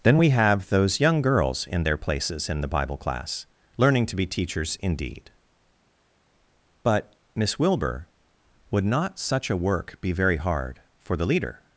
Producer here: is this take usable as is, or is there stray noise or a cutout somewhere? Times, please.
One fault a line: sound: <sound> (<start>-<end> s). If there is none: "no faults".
no faults